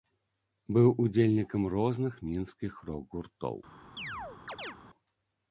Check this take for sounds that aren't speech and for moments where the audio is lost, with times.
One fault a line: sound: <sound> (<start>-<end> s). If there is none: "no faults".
sound: chirp (4.0-4.8 s)